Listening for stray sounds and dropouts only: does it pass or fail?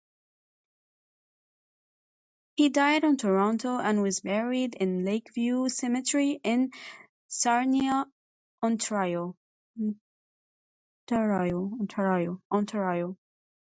pass